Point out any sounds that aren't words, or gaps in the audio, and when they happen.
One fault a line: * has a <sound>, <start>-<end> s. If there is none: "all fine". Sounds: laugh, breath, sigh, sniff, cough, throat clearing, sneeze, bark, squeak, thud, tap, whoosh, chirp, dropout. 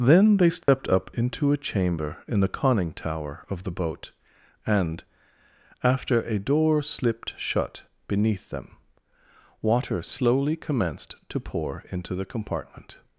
* has a dropout, 0.6-0.7 s